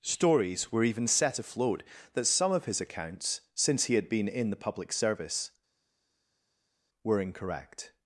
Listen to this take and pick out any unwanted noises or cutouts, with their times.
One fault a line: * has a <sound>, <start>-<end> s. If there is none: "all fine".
all fine